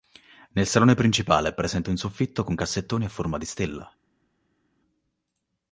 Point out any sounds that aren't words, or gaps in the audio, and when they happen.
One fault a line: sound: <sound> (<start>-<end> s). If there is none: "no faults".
no faults